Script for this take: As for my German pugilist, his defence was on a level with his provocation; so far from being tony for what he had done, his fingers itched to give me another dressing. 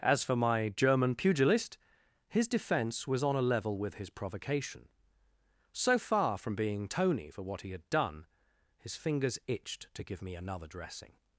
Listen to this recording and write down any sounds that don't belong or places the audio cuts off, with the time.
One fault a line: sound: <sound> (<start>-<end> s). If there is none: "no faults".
no faults